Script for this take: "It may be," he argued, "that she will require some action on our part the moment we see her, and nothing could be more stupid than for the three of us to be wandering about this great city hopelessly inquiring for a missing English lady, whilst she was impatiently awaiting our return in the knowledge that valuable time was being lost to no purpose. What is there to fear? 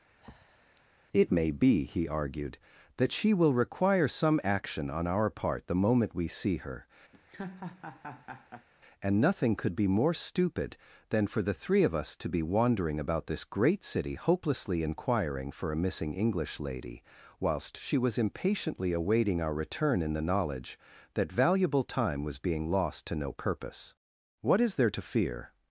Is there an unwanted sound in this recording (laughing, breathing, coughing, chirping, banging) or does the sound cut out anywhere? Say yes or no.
yes